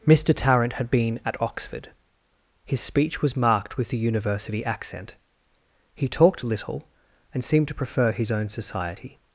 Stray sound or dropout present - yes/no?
no